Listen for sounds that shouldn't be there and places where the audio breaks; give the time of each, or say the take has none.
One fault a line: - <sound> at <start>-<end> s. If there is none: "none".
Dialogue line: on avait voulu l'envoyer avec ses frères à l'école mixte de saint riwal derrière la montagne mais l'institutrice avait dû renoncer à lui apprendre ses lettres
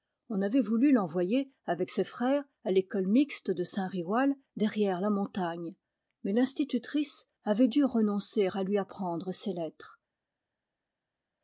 none